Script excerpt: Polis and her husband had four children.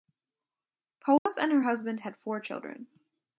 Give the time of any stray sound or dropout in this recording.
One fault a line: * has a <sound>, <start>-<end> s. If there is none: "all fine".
* has a dropout, 1.2-1.3 s